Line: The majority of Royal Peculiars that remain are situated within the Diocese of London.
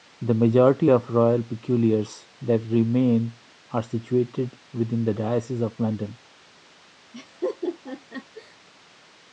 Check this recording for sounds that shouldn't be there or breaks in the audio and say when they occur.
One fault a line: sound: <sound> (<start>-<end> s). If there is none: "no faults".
sound: laugh (7.1-8.6 s)